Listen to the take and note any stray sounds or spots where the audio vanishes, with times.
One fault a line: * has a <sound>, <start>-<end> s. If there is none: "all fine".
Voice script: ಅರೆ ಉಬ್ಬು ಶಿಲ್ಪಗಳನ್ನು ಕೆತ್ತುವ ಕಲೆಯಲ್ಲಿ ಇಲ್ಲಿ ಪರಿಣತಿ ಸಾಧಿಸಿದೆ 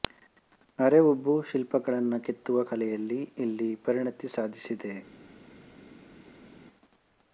all fine